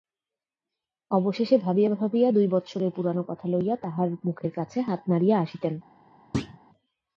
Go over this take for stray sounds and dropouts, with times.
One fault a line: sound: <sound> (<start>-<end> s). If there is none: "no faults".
sound: thud (6.3-6.6 s)